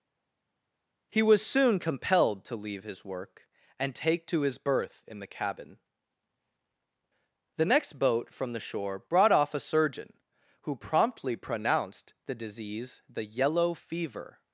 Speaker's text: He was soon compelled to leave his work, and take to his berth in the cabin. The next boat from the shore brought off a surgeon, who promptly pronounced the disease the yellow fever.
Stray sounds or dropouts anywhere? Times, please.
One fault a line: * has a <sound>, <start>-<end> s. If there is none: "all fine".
all fine